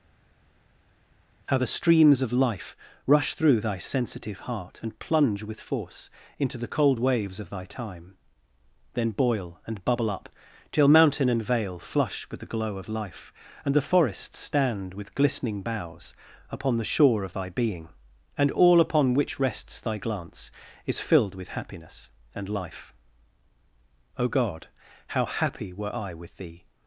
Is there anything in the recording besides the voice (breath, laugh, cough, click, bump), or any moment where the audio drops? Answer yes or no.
no